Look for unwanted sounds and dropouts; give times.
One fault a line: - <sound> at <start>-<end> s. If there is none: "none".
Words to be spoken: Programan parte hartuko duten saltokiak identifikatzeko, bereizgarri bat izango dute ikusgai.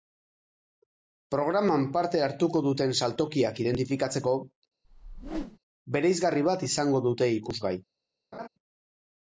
- whoosh at 4.8-5.6 s
- laugh at 8.3-8.5 s